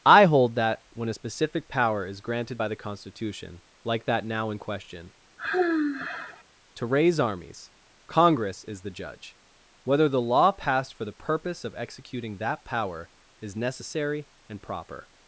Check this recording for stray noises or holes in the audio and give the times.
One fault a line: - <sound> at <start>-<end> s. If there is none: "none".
- sigh at 5.4-6.4 s